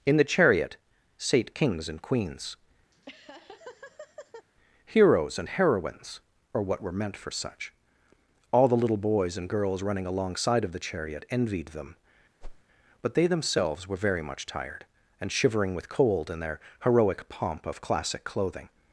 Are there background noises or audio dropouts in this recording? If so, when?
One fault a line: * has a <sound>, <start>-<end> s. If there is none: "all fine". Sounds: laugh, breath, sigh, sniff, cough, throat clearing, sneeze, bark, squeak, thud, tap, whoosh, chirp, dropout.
* has a laugh, 2.9-4.5 s
* has a whoosh, 12.4-12.6 s